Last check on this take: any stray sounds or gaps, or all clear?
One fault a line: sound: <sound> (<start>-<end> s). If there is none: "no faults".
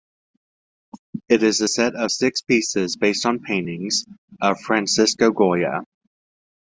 no faults